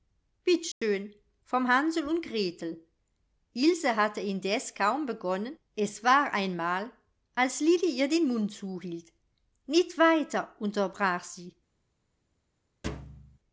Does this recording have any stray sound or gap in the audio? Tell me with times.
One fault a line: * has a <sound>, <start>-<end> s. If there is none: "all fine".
* has a dropout, 0.7-0.8 s
* has a thud, 12.8-13.4 s